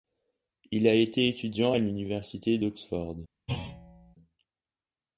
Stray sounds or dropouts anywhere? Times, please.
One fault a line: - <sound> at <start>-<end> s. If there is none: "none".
- thud at 3.5-4.2 s